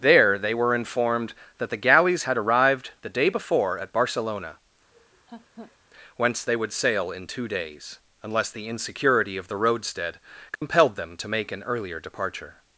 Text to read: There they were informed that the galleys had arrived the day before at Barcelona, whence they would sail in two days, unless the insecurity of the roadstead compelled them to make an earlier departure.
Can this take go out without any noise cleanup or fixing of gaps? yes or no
no